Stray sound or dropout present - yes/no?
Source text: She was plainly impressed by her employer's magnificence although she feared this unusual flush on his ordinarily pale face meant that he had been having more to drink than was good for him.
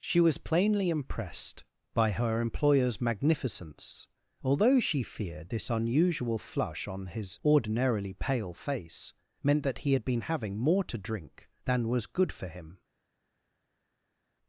no